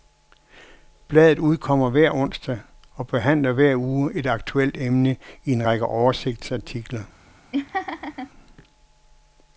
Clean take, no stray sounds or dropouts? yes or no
no